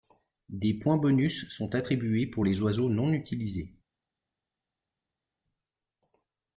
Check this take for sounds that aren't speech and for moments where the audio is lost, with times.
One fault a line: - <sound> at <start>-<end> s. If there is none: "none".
none